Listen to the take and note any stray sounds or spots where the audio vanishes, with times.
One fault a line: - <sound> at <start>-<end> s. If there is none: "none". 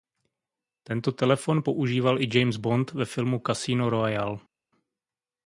none